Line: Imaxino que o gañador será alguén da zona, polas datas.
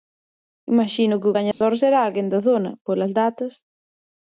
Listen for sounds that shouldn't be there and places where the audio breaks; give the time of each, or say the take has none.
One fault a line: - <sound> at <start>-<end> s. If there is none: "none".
- dropout at 1.5-1.6 s